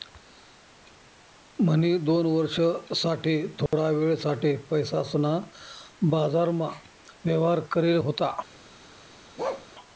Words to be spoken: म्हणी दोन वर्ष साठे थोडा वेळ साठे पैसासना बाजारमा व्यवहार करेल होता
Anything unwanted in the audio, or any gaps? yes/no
yes